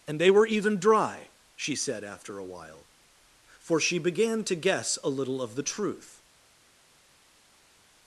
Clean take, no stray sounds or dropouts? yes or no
yes